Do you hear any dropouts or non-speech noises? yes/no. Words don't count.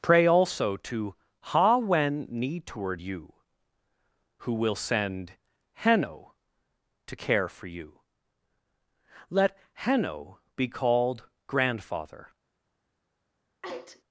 yes